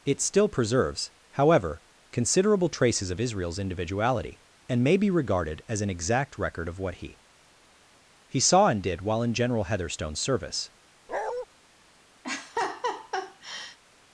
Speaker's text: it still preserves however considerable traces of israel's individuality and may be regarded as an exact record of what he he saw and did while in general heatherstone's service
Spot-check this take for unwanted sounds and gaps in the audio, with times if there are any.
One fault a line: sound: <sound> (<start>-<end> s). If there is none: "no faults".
sound: bark (11.1-11.5 s)
sound: laugh (12.2-13.8 s)